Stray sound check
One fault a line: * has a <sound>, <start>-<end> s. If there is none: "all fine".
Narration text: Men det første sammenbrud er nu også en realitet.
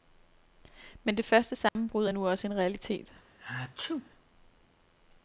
* has a dropout, 1.7-1.8 s
* has a sneeze, 3.4-4.1 s